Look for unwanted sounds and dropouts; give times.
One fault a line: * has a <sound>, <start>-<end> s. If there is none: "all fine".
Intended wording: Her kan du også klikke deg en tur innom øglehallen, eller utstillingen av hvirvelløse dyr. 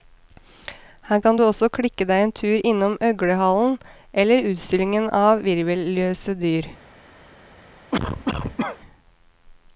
* has a cough, 7.9-8.8 s